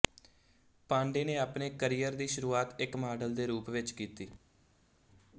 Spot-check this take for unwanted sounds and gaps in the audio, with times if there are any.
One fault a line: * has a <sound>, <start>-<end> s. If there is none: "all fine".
all fine